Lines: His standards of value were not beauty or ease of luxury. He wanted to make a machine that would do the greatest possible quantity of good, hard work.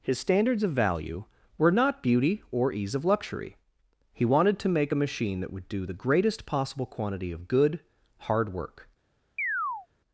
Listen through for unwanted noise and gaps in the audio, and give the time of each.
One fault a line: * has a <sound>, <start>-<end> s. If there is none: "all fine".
* has a chirp, 9.4-9.9 s